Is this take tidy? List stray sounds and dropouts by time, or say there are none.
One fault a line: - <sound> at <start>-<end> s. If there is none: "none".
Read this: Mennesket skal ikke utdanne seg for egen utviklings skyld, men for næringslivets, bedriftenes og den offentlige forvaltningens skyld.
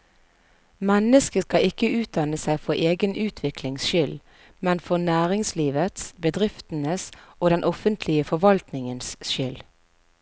none